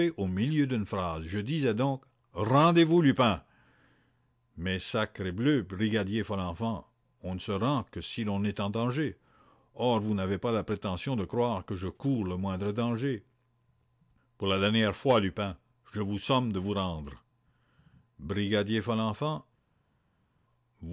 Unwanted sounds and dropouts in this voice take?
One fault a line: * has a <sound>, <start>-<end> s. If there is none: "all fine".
all fine